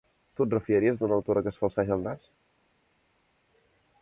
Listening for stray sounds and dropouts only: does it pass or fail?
pass